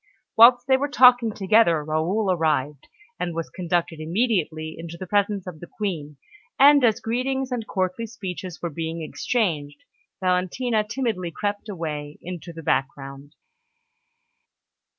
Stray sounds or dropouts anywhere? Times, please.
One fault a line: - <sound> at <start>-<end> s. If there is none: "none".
none